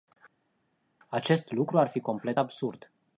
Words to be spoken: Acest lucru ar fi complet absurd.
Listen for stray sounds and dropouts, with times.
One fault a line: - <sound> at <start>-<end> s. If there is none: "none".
none